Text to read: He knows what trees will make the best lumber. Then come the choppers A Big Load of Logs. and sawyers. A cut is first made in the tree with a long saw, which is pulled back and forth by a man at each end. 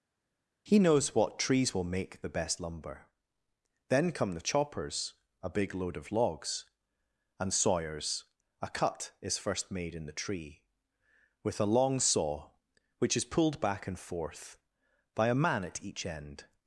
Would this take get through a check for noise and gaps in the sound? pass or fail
pass